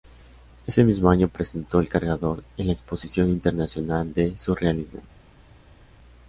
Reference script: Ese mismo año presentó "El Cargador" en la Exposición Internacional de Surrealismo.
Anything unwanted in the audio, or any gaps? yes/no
no